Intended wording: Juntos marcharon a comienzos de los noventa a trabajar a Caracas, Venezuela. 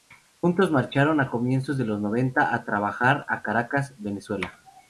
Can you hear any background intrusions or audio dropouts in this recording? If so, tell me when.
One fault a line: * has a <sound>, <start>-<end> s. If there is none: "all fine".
all fine